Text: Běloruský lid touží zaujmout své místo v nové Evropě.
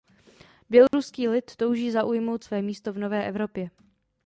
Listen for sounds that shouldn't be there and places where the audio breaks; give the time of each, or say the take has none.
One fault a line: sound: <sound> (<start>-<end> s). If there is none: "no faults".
sound: dropout (0.9-0.9 s)